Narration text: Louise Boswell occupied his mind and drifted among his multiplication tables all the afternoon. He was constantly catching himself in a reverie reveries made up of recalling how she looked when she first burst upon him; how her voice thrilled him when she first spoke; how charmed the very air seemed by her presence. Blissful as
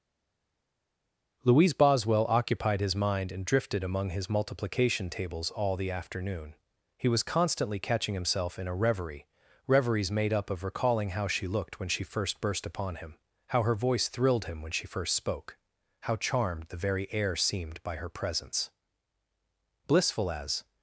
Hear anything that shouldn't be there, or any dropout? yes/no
no